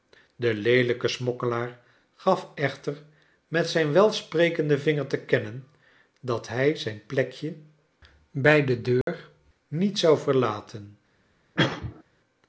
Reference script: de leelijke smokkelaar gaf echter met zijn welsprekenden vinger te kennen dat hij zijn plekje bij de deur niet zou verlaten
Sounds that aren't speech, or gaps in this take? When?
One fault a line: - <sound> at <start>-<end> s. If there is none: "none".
- dropout at 9.0-9.1 s
- cough at 11.6-12.0 s